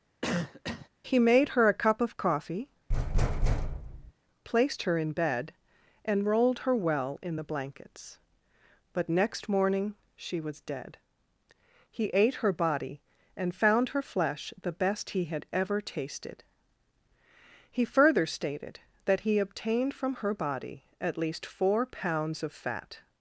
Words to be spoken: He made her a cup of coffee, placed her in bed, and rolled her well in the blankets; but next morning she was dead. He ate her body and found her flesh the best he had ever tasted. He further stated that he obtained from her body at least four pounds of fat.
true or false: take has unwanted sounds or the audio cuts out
true